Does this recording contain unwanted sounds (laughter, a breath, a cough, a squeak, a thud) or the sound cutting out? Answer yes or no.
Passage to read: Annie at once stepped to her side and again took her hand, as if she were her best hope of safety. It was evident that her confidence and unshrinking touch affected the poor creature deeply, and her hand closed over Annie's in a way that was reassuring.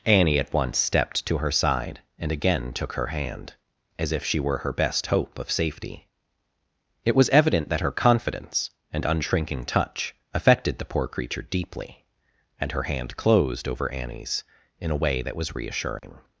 yes